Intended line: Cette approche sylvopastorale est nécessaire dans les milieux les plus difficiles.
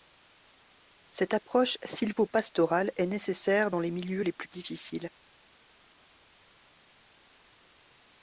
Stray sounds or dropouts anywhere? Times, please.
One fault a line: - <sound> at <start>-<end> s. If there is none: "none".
none